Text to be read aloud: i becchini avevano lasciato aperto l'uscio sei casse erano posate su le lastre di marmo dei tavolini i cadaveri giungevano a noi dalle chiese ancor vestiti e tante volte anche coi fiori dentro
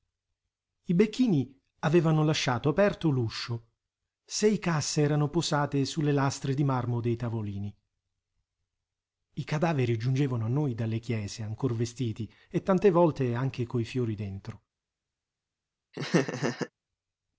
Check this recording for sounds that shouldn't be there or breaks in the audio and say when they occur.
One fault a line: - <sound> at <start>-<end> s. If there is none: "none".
- laugh at 15.9-16.7 s